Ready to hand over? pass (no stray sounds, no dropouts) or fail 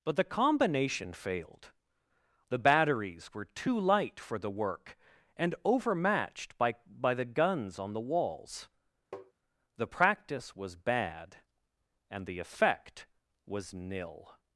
fail